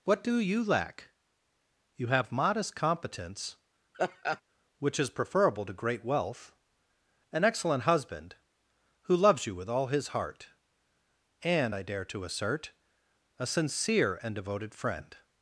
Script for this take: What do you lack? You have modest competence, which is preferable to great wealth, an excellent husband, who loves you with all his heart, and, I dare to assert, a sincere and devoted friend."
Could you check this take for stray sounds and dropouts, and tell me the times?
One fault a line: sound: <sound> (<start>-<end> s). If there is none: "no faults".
sound: laugh (3.9-4.4 s)